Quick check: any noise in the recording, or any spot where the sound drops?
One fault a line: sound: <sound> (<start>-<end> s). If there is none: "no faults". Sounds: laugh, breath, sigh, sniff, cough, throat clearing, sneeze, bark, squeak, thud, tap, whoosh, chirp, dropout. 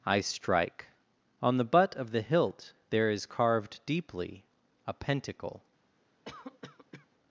sound: cough (6.3-7.1 s)